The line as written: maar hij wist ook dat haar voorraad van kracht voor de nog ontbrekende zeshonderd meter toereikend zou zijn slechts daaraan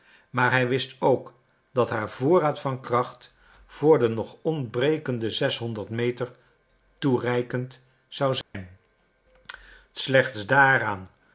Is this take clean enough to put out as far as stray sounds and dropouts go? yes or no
no